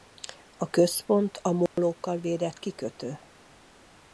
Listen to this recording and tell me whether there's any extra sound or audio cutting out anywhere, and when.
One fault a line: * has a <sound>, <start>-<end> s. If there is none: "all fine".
* has a dropout, 1.7-1.8 s